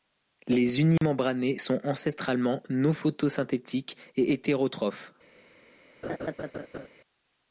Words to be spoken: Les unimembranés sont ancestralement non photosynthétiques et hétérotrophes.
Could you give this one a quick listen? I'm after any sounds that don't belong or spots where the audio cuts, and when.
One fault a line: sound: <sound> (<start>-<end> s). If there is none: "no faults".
sound: dropout (1.0-1.0 s)
sound: laugh (6.0-6.9 s)